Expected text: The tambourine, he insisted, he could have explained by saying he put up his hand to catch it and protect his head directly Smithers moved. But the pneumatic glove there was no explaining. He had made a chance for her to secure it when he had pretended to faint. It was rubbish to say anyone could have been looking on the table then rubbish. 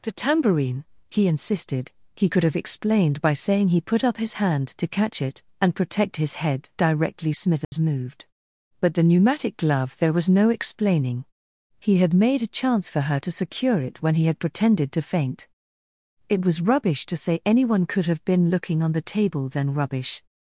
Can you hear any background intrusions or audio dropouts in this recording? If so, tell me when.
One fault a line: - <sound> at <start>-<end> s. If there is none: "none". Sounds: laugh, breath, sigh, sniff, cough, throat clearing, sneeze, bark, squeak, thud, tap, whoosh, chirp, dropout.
- dropout at 7.6-7.7 s